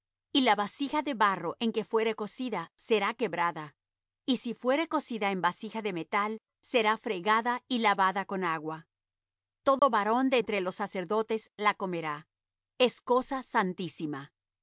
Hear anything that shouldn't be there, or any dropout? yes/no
yes